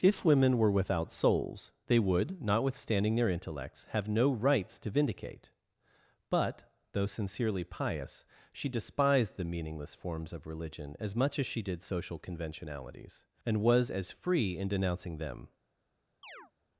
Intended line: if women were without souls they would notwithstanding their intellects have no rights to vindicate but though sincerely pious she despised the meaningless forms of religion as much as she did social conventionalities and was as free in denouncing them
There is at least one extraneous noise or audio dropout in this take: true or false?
true